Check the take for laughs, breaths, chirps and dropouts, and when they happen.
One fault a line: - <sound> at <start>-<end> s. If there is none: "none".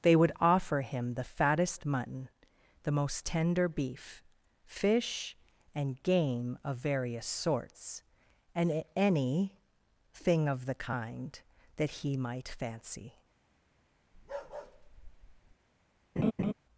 - bark at 14.1-15.6 s
- laugh at 16.2-16.5 s